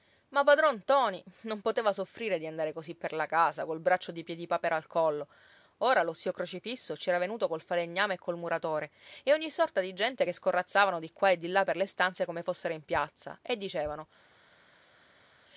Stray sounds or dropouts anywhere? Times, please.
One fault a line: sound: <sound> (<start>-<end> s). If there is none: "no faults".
no faults